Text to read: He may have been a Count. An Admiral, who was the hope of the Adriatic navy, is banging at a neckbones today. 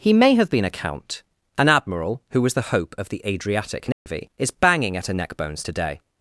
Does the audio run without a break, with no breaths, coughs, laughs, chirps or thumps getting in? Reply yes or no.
no